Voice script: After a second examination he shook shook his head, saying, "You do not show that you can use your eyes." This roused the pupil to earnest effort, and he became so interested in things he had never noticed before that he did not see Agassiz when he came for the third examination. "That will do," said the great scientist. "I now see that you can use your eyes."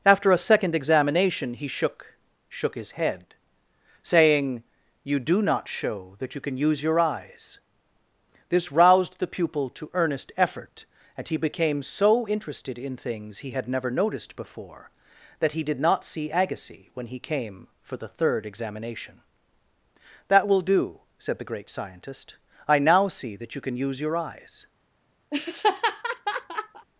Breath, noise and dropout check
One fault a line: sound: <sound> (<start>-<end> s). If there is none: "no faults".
sound: laugh (25.3-26.9 s)